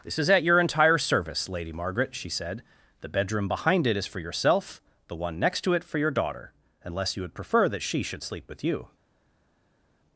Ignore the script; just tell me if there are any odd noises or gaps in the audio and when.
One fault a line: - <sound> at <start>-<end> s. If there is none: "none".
none